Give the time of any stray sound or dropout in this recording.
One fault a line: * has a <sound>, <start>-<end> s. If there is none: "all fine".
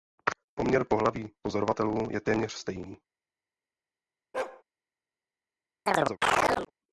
* has a bark, 4.3-4.6 s
* has a chirp, 5.9-6.7 s